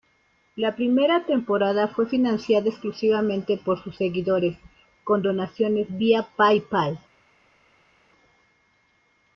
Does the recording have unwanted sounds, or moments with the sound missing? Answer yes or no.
no